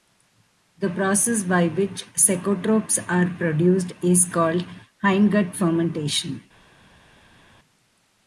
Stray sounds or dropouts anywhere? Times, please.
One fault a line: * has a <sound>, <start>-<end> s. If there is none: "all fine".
all fine